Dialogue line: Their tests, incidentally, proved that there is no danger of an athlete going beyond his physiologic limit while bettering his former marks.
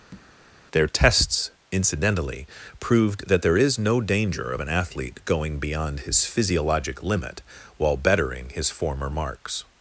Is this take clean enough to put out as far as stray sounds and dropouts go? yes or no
no